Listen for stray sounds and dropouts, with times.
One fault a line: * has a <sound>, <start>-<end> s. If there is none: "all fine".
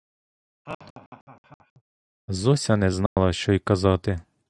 * has a laugh, 0.7-1.8 s
* has a dropout, 3.1-3.2 s